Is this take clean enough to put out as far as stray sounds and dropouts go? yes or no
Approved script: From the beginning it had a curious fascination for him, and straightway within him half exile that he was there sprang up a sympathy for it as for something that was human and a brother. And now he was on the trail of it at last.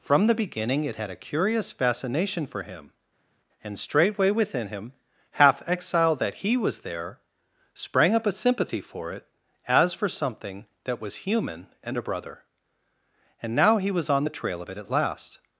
yes